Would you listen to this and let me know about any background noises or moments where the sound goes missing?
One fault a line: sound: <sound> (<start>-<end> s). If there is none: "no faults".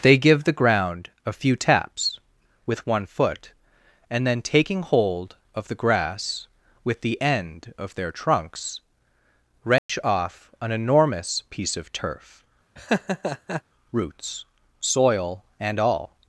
sound: dropout (9.8-9.9 s)
sound: laugh (12.8-13.6 s)